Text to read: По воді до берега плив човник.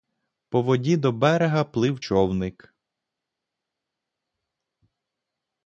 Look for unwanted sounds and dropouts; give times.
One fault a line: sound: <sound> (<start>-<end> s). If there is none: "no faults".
no faults